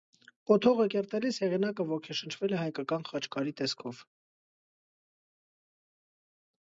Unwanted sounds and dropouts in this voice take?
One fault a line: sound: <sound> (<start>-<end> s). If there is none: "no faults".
no faults